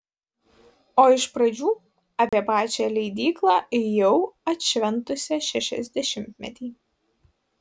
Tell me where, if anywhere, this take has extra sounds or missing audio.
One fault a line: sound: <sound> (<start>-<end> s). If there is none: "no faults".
sound: dropout (2.3-2.3 s)